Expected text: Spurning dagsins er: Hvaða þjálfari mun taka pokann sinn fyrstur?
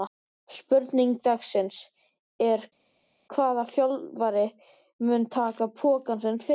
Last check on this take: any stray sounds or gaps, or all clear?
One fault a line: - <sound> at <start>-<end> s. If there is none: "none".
none